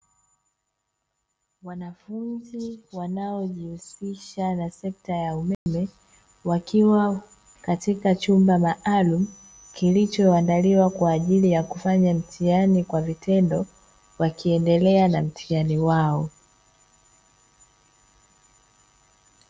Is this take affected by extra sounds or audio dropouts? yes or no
yes